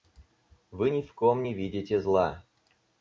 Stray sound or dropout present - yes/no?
no